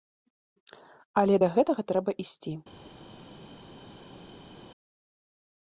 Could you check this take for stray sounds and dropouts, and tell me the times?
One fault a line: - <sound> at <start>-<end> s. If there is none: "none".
none